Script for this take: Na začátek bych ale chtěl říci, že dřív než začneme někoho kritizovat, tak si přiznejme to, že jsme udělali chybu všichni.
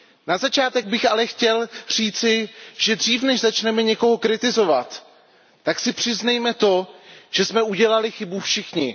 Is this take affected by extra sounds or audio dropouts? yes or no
no